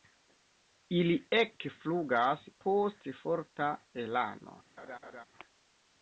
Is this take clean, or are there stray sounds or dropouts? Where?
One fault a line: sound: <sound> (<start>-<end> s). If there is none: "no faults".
sound: laugh (4.8-5.2 s)